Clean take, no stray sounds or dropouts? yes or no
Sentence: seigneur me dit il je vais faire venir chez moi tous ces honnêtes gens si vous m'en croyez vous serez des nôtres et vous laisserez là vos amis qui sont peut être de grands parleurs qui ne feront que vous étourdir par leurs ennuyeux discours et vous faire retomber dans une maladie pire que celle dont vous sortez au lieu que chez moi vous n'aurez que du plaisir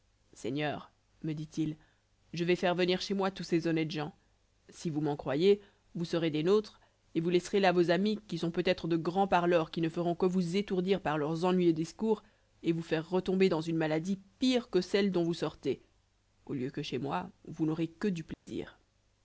no